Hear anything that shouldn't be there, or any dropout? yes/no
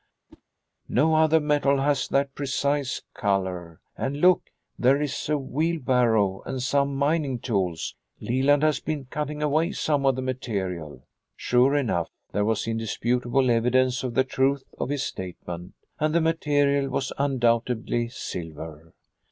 yes